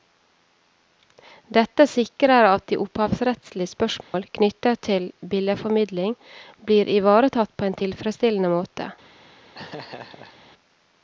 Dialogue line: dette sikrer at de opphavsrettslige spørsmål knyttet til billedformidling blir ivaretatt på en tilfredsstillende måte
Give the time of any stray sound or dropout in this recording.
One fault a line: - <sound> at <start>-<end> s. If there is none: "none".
- dropout at 4.0-4.1 s
- laugh at 9.5-10.4 s